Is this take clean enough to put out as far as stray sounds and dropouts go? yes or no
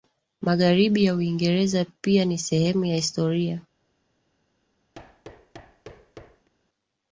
no